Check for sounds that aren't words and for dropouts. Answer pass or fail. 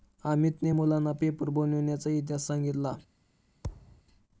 fail